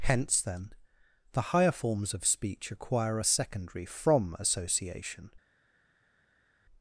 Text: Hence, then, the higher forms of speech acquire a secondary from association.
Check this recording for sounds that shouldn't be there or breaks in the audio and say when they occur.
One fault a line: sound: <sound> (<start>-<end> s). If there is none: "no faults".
no faults